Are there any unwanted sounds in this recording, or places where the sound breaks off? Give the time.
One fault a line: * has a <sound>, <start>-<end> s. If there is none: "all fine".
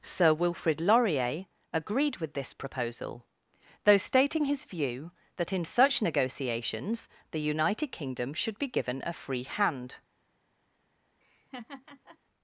* has a laugh, 11.2-12.2 s